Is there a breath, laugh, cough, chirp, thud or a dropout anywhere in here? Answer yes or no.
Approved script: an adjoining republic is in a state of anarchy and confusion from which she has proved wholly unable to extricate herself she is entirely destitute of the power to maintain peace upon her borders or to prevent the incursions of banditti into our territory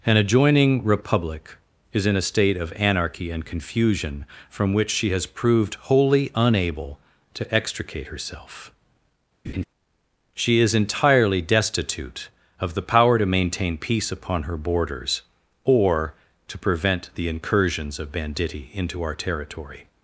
yes